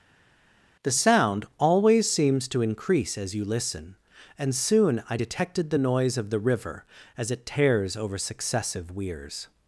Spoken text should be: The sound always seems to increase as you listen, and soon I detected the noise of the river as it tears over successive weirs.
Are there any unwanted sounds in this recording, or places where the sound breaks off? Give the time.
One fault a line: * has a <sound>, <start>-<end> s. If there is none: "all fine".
all fine